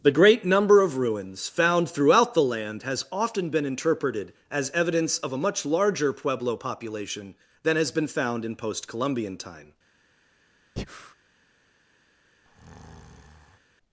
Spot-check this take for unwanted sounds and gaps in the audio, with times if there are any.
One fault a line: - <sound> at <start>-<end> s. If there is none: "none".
- breath at 10.8-11.1 s
- breath at 12.4-13.6 s